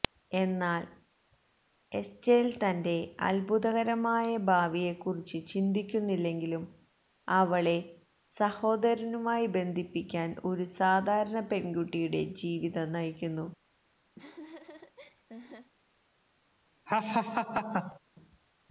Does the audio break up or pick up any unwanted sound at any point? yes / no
yes